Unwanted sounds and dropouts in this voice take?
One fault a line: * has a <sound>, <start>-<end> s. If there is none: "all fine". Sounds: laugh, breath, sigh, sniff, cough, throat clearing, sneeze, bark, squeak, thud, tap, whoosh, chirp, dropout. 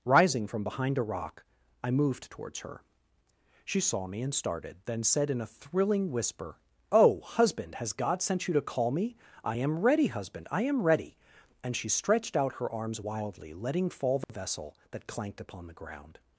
* has a dropout, 14.2-14.3 s